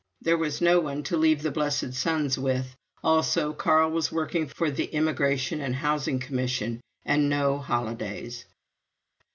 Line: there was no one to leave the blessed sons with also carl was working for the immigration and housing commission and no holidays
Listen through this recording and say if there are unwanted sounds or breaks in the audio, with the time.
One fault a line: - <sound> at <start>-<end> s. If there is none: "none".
none